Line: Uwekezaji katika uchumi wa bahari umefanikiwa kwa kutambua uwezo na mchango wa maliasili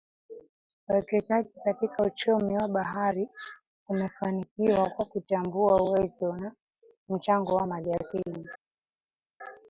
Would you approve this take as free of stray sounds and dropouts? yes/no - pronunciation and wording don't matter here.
yes